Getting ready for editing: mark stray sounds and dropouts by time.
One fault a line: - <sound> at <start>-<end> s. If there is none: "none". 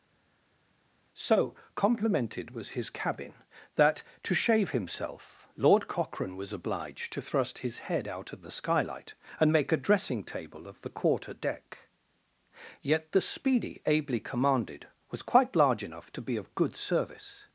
none